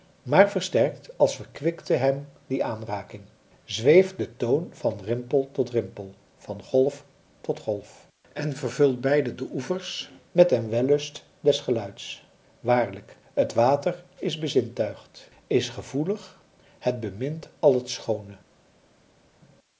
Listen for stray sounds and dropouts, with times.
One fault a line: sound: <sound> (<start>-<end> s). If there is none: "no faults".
no faults